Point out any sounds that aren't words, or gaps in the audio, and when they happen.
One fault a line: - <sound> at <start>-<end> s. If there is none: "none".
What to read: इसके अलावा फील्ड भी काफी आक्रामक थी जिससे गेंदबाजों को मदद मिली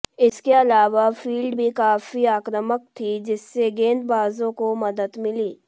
none